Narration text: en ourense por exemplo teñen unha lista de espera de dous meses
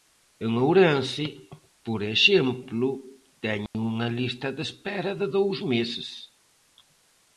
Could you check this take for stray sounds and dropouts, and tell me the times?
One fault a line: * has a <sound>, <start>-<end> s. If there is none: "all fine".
* has a dropout, 3.7-3.7 s